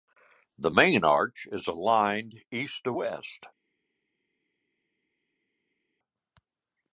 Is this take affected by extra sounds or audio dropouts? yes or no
no